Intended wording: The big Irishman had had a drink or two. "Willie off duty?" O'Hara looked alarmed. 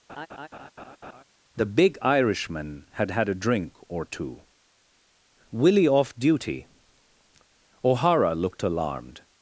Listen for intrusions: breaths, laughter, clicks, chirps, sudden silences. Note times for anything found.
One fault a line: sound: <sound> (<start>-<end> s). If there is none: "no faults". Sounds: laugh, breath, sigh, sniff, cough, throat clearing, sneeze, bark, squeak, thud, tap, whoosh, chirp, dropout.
sound: laugh (0.1-1.2 s)